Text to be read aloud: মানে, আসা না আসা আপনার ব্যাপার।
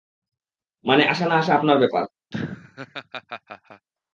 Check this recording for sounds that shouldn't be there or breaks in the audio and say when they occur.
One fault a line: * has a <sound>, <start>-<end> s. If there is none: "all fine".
* has a laugh, 2.3-3.9 s